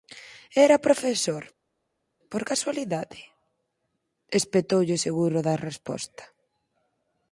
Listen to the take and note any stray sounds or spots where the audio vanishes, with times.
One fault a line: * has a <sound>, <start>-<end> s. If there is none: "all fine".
all fine